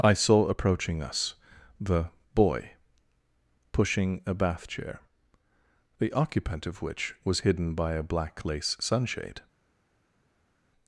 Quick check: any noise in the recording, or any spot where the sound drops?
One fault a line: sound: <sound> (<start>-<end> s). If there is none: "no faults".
no faults